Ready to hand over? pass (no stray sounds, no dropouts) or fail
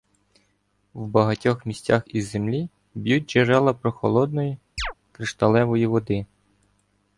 fail